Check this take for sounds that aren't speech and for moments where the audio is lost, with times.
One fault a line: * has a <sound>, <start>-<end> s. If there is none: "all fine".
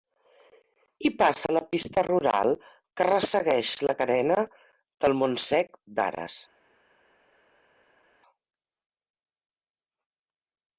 all fine